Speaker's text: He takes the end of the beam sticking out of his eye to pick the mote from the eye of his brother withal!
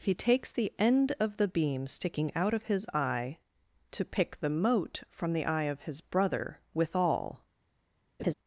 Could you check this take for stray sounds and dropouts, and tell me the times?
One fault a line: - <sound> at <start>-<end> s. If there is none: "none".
- laugh at 8.2-8.3 s